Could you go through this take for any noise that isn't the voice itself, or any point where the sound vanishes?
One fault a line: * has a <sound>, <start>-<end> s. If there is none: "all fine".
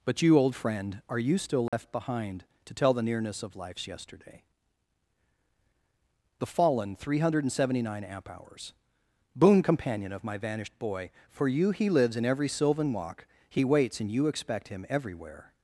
* has a dropout, 1.7-1.7 s